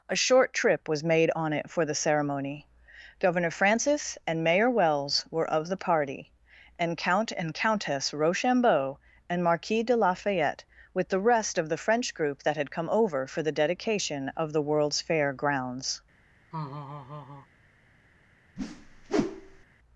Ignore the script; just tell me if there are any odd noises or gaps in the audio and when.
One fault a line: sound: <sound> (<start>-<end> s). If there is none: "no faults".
sound: laugh (16.5-17.5 s)
sound: whoosh (18.6-19.7 s)